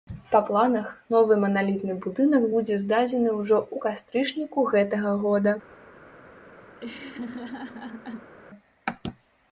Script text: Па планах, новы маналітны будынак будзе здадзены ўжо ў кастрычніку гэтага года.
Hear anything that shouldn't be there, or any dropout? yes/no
yes